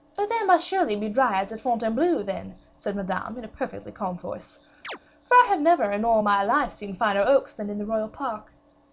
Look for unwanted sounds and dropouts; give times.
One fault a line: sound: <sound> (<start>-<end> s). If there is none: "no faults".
sound: chirp (4.8-5.0 s)